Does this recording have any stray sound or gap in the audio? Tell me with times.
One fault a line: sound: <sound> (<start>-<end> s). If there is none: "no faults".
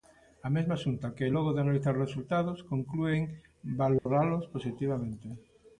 sound: dropout (4.0-4.1 s)